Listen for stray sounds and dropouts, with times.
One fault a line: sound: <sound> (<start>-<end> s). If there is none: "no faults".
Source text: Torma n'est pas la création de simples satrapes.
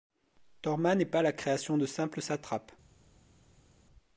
no faults